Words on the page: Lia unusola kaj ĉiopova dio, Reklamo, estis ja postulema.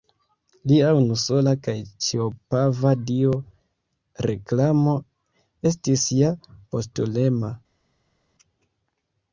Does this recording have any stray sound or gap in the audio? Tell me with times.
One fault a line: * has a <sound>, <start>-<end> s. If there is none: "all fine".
all fine